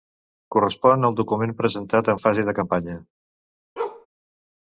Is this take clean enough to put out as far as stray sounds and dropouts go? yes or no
no